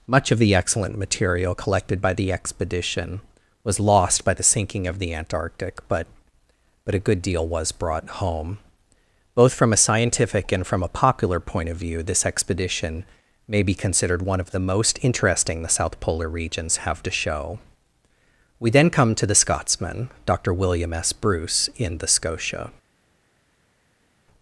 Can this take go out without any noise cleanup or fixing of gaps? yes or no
yes